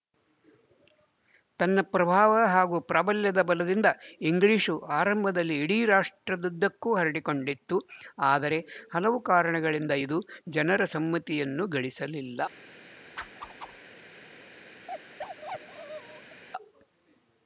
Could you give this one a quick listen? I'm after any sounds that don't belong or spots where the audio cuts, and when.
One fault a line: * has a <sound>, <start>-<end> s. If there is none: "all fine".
* has a whoosh, 13.2-13.8 s
* has a bark, 14.9-16.4 s